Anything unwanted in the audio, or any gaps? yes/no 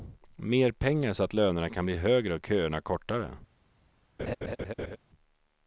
yes